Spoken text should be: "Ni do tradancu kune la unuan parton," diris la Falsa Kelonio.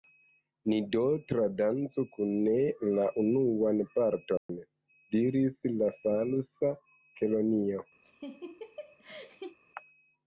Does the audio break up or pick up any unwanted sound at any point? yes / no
yes